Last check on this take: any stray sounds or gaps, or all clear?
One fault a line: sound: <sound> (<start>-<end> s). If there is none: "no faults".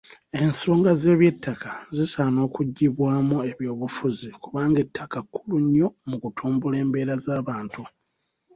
no faults